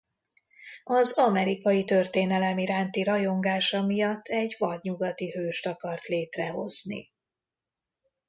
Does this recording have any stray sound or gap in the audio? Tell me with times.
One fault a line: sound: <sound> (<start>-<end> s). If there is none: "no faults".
no faults